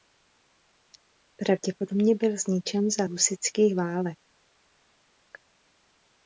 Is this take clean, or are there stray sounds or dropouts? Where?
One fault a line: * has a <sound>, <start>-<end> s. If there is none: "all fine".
all fine